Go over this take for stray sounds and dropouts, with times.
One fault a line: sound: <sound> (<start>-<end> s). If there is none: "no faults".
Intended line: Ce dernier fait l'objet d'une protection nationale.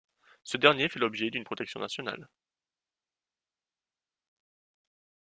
no faults